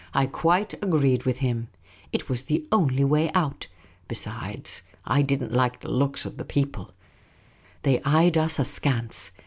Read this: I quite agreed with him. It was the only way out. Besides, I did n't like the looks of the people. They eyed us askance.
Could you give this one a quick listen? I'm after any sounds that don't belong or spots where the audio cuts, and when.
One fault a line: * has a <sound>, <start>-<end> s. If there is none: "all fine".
all fine